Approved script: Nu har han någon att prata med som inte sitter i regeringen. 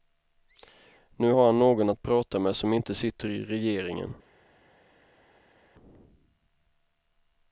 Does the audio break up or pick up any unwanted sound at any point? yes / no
no